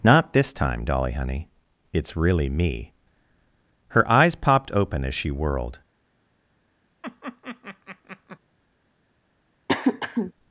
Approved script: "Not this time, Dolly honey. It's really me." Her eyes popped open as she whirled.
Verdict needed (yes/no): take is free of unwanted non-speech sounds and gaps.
no